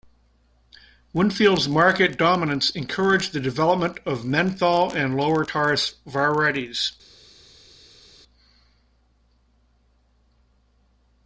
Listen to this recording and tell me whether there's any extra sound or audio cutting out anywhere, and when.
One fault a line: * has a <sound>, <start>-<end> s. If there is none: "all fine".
all fine